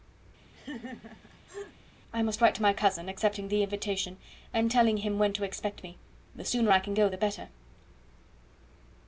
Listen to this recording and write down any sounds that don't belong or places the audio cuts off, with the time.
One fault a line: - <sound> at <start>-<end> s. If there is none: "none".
- laugh at 0.5-1.8 s